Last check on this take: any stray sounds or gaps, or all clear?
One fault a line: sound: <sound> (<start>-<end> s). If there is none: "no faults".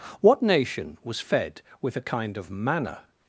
no faults